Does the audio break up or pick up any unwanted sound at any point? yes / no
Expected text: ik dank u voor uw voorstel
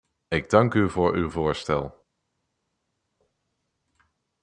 no